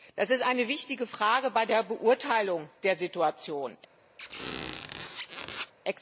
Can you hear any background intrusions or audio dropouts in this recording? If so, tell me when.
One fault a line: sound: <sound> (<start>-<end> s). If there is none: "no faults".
sound: squeak (4.2-5.7 s)